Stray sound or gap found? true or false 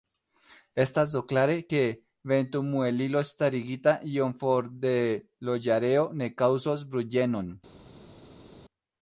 false